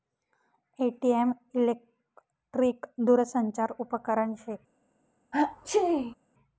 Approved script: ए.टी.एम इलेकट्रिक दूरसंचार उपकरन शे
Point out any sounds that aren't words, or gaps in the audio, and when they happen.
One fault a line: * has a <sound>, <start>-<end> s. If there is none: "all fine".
* has a sneeze, 5.3-6.2 s